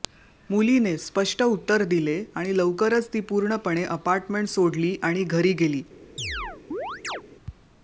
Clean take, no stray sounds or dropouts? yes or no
no